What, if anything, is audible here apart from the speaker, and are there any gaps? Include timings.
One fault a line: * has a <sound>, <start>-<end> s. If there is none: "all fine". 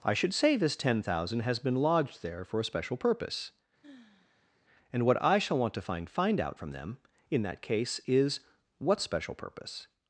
* has a sigh, 3.8-4.6 s